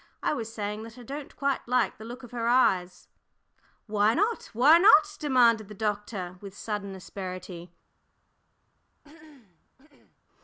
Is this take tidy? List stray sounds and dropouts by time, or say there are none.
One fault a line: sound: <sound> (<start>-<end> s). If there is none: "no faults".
sound: throat clearing (9.0-10.2 s)